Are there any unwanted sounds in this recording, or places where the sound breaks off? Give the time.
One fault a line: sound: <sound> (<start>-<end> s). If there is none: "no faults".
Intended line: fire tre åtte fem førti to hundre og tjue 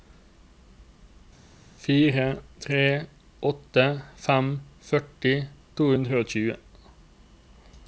no faults